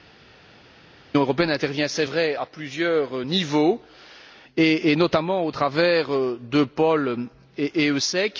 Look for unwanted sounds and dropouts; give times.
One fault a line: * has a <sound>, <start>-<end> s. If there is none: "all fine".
all fine